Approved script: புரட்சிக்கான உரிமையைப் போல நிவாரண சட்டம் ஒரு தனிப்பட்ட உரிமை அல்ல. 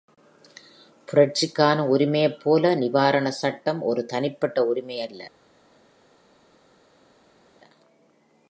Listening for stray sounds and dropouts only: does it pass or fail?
pass